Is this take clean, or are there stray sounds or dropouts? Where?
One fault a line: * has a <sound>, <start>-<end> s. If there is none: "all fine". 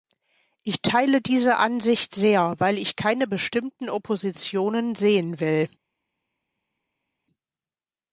all fine